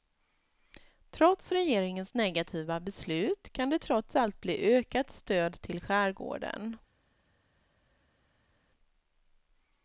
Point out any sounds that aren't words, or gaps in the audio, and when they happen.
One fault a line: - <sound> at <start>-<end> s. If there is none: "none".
none